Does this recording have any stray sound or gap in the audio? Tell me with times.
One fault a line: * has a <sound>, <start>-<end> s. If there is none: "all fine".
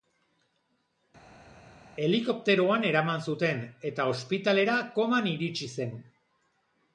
all fine